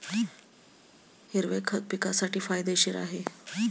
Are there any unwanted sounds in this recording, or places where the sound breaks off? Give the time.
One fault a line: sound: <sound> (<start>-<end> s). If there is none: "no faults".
no faults